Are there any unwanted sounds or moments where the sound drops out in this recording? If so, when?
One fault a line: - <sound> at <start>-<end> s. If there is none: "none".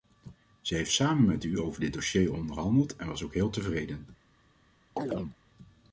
- chirp at 5.0-5.4 s